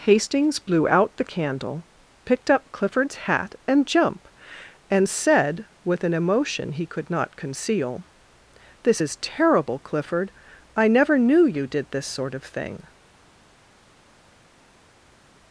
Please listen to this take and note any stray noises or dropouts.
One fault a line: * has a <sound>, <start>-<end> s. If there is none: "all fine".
all fine